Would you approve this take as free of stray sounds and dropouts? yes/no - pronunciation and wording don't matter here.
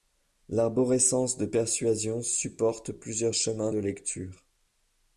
yes